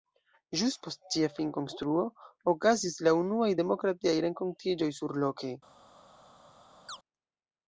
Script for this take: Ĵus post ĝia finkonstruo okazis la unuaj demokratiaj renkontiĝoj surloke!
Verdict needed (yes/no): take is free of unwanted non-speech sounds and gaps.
no